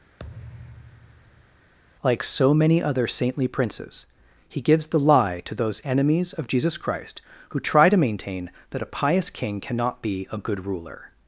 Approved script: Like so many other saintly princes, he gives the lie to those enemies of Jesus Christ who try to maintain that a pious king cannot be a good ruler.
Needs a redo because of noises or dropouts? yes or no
yes